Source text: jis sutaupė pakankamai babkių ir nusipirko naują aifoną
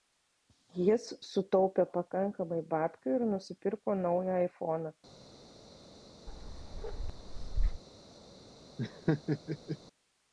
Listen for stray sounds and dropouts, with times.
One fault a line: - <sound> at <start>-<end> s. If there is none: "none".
- bark at 6.3-7.8 s
- laugh at 8.8-9.8 s